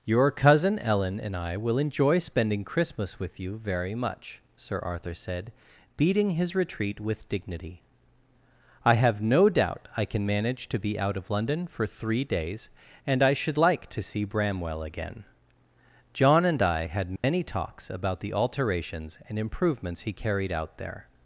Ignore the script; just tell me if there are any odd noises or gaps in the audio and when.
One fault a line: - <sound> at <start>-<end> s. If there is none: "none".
- dropout at 17.2-17.2 s